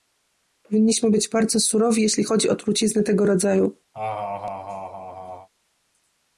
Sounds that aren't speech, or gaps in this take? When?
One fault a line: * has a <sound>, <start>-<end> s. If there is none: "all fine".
* has a laugh, 3.9-5.5 s